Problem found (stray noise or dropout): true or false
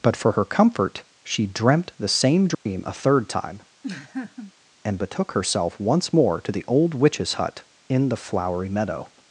true